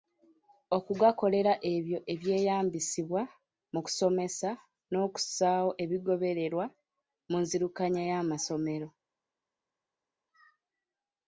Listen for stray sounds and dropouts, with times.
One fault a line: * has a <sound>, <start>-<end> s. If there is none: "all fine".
all fine